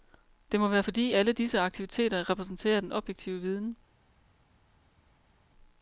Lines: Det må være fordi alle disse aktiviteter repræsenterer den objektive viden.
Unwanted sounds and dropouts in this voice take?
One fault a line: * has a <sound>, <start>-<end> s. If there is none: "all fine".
all fine